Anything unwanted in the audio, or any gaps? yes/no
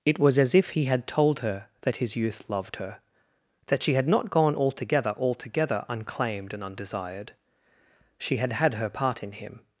no